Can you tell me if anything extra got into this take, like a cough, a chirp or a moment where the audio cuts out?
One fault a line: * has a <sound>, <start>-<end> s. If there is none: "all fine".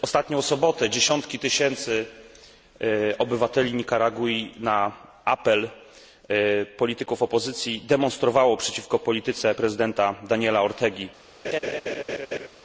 * has a laugh, 11.4-12.5 s